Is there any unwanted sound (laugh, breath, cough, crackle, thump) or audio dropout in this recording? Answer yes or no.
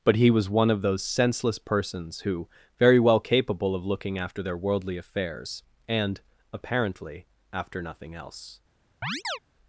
yes